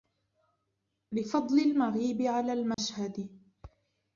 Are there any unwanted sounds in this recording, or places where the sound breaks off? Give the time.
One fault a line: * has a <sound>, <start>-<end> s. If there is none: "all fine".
* has a dropout, 2.7-2.8 s